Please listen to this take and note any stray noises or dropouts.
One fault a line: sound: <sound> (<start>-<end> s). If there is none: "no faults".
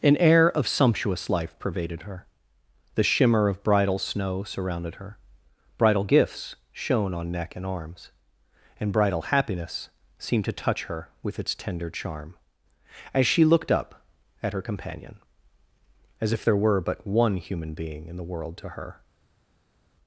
no faults